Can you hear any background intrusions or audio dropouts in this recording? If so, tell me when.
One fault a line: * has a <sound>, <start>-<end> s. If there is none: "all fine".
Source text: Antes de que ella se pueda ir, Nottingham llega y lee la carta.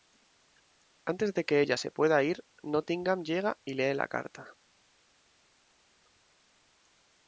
all fine